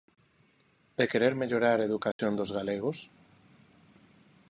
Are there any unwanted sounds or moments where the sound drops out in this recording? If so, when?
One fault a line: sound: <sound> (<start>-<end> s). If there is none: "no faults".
sound: dropout (2.1-2.2 s)